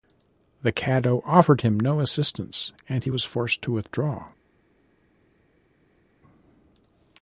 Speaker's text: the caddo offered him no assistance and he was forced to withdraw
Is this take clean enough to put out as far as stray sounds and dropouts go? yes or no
yes